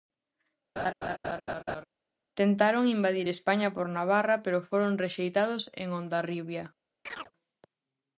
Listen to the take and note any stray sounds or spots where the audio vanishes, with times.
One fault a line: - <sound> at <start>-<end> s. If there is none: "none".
- laugh at 0.8-1.8 s
- chirp at 7.1-7.3 s